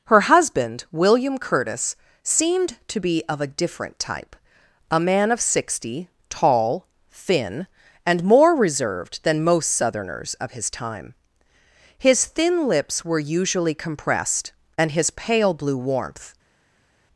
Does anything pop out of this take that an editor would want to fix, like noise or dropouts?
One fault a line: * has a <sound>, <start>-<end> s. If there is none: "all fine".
all fine